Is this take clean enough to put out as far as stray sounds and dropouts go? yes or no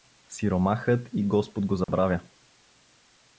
no